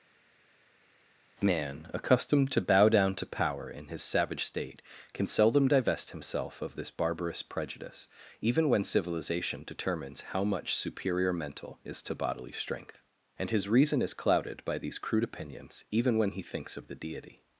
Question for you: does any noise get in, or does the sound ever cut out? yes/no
no